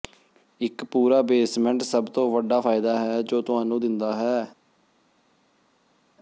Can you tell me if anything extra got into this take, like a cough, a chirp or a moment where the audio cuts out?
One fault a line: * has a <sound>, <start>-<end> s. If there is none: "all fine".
all fine